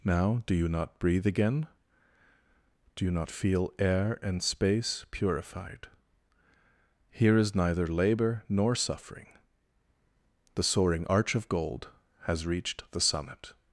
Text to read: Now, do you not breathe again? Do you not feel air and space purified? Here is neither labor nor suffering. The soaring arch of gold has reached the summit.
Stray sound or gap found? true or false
false